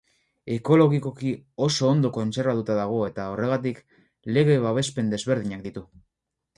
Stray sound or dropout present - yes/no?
no